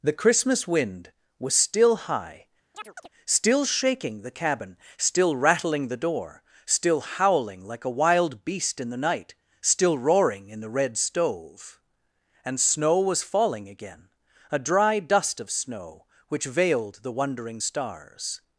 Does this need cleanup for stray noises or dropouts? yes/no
yes